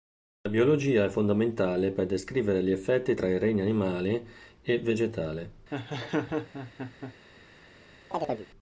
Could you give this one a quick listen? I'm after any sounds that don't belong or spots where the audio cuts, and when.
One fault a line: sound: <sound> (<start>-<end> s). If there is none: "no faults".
sound: laugh (5.7-7.1 s)
sound: chirp (8.1-8.5 s)